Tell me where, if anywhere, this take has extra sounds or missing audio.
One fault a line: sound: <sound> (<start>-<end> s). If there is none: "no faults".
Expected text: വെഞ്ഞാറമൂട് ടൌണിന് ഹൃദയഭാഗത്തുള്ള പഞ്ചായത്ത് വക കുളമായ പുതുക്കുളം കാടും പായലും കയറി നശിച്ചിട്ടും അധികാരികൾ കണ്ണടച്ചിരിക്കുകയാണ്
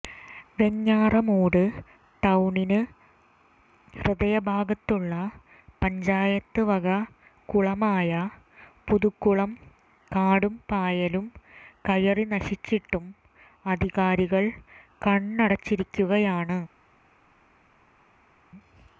no faults